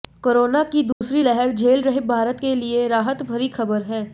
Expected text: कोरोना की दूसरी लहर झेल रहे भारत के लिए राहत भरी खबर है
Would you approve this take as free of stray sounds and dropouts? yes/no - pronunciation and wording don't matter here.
no